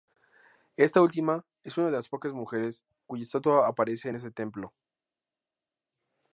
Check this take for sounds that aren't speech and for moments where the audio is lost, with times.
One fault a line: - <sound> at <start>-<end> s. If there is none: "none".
none